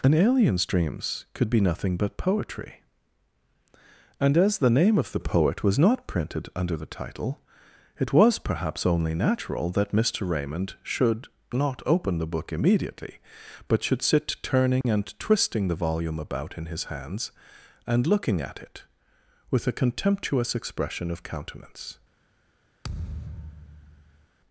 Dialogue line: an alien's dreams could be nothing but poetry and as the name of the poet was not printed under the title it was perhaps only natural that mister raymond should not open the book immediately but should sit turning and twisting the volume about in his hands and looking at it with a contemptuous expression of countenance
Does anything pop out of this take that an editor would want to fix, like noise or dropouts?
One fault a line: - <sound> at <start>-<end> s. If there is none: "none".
- dropout at 14.8-14.8 s
- thud at 22.8-24.3 s